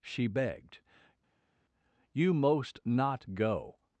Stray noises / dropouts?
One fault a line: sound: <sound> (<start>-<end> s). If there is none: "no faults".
no faults